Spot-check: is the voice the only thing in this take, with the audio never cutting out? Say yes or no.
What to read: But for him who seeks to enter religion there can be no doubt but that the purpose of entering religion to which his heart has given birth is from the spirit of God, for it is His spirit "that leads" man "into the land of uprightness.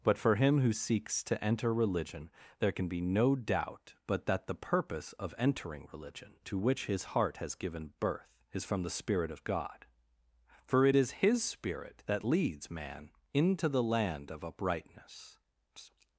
yes